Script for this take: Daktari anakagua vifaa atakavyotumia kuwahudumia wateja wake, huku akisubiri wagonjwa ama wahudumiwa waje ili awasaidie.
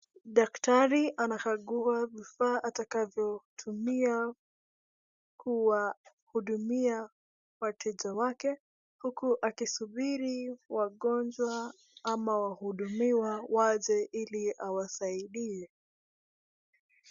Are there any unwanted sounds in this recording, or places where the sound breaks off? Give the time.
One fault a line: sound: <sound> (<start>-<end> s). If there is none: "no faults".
no faults